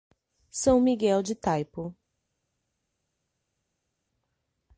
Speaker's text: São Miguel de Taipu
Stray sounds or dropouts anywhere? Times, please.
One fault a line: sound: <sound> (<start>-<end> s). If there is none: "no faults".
no faults